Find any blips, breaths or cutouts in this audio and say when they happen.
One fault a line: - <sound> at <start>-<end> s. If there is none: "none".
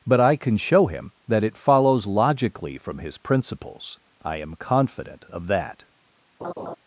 - laugh at 6.4-6.8 s